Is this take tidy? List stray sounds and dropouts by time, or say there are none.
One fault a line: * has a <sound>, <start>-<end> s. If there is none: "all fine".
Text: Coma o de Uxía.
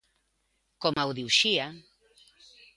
* has a dropout, 0.9-1.0 s